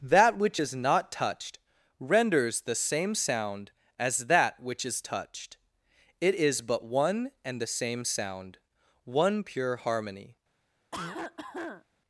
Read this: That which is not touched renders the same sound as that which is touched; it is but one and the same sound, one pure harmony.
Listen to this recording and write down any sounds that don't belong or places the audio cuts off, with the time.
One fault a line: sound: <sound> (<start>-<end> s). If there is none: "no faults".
sound: cough (10.9-11.8 s)